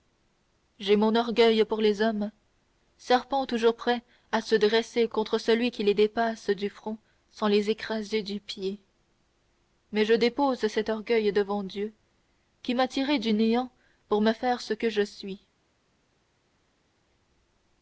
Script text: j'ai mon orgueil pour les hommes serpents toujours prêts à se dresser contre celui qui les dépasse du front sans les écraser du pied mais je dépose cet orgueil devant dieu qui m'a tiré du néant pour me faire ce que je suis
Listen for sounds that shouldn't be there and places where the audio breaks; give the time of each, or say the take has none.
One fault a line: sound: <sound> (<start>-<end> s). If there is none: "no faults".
no faults